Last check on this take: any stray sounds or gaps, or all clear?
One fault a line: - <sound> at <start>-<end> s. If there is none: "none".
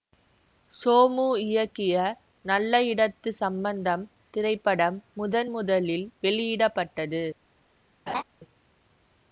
- laugh at 8.1-8.2 s